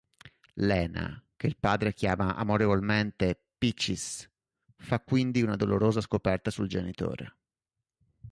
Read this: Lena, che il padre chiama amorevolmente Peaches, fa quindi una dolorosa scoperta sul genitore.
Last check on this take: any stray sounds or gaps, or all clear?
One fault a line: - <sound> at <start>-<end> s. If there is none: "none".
none